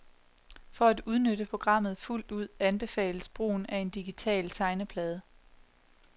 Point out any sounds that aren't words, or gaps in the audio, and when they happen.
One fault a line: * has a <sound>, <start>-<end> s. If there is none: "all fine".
all fine